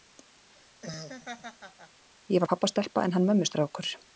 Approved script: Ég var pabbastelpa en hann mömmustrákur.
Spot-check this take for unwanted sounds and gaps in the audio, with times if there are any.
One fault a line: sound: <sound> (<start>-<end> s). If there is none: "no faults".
sound: laugh (0.5-2.0 s)